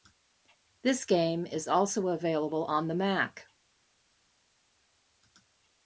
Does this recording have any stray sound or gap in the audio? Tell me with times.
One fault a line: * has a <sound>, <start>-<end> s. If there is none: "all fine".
all fine